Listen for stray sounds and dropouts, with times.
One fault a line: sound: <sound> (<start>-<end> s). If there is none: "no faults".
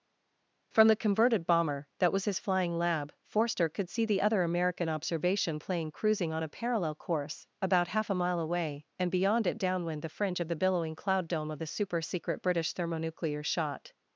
no faults